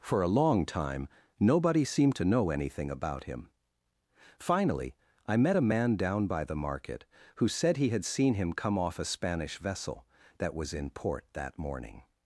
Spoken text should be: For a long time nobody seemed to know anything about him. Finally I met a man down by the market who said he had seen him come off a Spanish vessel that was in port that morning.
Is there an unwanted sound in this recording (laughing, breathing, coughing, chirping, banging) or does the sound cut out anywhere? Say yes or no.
no